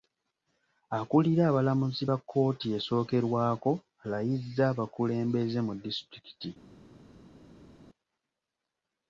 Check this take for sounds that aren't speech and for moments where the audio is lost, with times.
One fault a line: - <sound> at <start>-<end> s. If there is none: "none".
none